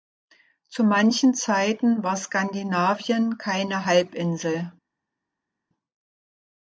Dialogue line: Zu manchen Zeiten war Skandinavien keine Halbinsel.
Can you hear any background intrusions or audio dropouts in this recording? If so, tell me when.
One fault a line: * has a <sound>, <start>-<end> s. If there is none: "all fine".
all fine